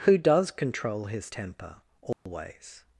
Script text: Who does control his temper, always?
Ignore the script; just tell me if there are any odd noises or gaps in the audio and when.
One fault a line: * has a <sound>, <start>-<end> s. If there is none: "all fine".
* has a dropout, 2.1-2.3 s